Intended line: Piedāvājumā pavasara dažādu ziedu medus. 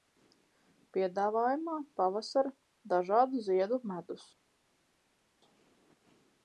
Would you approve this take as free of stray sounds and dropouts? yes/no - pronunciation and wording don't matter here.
yes